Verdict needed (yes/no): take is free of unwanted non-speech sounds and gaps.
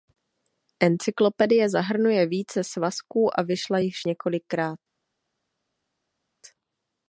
yes